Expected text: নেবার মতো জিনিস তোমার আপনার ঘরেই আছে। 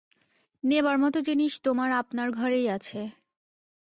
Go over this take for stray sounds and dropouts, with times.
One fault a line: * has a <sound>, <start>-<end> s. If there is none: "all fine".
all fine